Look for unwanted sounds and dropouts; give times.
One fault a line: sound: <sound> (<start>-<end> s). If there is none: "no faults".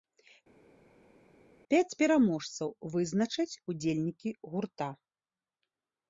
no faults